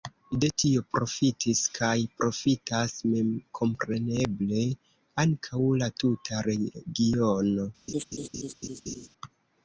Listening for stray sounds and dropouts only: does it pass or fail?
fail